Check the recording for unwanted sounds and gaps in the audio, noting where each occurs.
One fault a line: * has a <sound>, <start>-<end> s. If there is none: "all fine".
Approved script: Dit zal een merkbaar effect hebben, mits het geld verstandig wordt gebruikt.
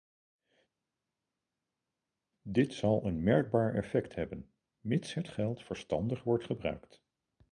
all fine